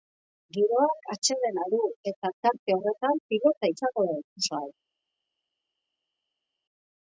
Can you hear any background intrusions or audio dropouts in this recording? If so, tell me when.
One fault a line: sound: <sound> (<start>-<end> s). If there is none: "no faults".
no faults